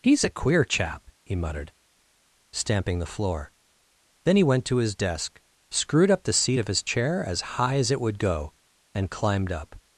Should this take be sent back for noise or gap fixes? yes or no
no